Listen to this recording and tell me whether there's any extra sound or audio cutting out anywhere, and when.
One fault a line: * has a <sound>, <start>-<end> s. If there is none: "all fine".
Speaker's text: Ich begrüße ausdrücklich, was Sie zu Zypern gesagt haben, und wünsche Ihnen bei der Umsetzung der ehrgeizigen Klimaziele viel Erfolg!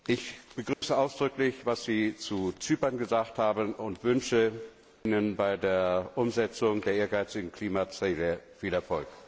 * has a dropout, 0.7-0.8 s